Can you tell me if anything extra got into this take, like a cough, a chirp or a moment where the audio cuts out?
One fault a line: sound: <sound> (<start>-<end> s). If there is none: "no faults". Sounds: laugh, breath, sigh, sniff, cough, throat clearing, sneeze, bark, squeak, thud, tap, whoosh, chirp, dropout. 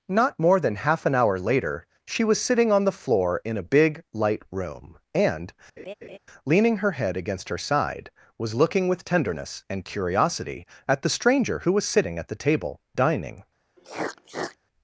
sound: laugh (5.8-6.2 s)
sound: sniff (13.8-14.6 s)